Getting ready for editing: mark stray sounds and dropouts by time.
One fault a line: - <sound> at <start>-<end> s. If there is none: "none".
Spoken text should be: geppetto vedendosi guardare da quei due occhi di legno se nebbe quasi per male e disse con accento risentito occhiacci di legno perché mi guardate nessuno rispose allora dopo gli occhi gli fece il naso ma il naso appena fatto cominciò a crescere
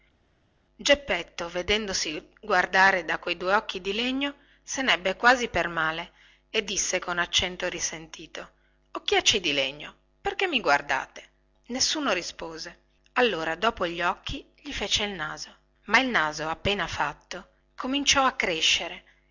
none